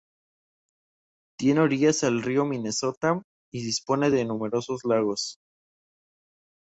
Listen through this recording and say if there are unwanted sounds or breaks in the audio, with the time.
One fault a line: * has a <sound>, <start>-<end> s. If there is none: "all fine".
all fine